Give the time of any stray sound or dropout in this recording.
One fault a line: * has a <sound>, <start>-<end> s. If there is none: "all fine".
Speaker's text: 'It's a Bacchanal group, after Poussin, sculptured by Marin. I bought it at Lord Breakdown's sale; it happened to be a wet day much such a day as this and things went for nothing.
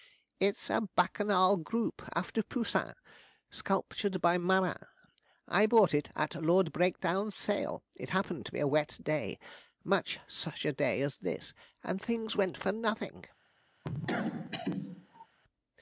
* has a cough, 13.8-15.3 s